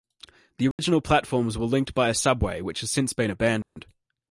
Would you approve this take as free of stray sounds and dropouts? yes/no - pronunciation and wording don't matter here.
no